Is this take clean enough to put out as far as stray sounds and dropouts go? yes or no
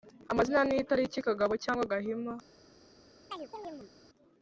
no